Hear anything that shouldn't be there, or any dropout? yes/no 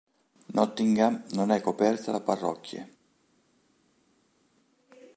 no